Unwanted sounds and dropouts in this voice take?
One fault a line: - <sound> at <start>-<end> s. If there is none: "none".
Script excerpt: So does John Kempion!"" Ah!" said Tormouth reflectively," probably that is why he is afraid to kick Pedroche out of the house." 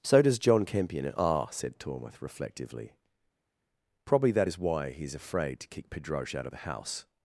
none